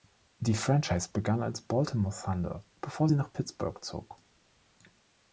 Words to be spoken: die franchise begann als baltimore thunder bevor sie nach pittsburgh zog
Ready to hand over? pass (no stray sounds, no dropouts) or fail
pass